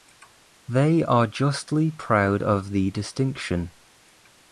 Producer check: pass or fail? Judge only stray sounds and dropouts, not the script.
pass